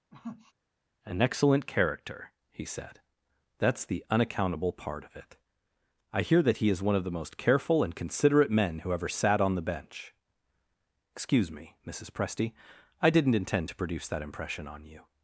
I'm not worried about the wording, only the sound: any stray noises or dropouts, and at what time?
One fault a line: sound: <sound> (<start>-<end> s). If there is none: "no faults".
sound: sniff (0.1-0.5 s)